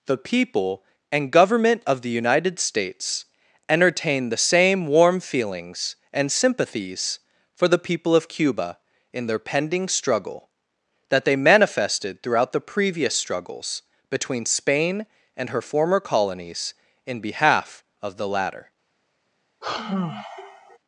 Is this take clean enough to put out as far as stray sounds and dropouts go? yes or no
no